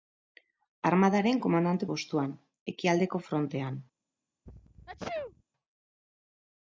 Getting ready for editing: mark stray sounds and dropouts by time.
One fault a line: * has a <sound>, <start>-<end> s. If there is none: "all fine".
* has a sneeze, 4.5-5.4 s